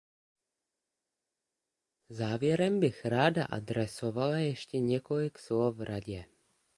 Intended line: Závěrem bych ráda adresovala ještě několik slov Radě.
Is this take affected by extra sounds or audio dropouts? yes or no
no